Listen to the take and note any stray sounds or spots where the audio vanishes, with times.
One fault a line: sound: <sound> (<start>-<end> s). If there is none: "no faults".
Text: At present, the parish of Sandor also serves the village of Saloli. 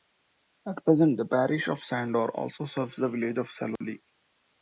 sound: dropout (3.8-3.8 s)